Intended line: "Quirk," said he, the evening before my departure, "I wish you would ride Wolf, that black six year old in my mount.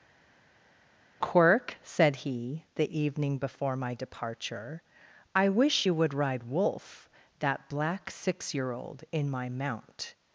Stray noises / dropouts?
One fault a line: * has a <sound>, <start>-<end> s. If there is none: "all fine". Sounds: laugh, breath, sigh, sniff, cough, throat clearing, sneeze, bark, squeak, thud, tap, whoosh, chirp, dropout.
all fine